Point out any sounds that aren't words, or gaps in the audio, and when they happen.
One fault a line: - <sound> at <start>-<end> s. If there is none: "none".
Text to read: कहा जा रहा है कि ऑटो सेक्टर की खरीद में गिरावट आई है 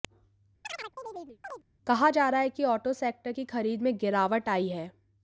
- chirp at 0.6-1.6 s